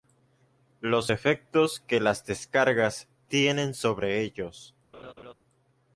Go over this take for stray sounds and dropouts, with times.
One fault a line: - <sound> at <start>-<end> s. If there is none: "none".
- laugh at 4.9-5.3 s